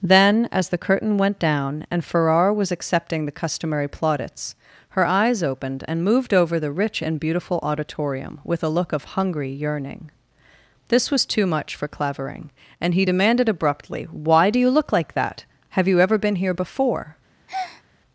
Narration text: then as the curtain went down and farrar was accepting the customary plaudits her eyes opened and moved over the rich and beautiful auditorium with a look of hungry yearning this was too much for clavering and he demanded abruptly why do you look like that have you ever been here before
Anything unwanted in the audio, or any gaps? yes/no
yes